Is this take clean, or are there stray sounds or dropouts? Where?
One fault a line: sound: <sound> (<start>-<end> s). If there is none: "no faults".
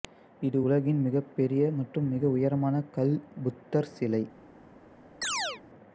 sound: chirp (5.2-5.6 s)